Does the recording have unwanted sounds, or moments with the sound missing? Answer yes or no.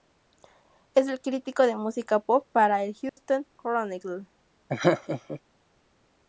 yes